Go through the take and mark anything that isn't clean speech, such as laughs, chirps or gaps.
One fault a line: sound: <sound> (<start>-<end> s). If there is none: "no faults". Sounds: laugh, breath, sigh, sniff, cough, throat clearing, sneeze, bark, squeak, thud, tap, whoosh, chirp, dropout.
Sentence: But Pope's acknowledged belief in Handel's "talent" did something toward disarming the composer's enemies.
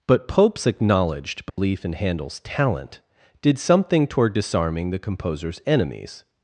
sound: dropout (1.5-1.6 s)